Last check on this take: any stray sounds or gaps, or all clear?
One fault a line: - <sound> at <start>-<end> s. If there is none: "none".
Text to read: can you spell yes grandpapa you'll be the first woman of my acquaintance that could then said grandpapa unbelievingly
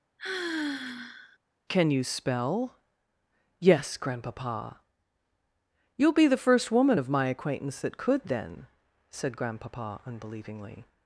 - sigh at 0.2-1.4 s